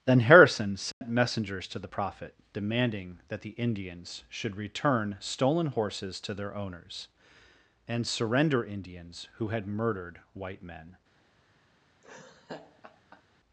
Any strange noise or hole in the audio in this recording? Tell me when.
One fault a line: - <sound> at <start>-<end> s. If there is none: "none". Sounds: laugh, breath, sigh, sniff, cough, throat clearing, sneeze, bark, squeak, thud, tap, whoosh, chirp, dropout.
- dropout at 0.9-1.0 s
- laugh at 12.0-13.2 s